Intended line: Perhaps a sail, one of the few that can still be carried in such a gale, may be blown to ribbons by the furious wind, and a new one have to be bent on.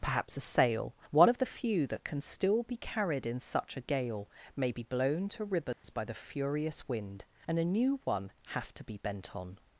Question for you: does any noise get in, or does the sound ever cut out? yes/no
yes